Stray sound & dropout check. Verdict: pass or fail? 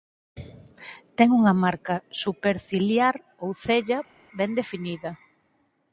pass